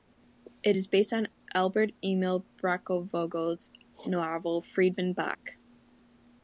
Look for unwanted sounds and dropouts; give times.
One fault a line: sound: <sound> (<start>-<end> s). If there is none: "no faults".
sound: dropout (5.3-5.4 s)